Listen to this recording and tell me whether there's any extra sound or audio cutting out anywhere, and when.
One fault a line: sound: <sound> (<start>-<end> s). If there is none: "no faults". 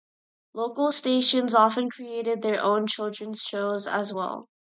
no faults